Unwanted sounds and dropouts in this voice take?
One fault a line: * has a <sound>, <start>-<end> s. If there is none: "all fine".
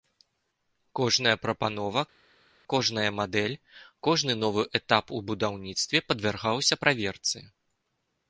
all fine